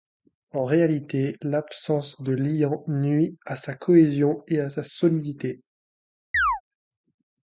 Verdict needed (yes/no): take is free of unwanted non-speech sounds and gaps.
no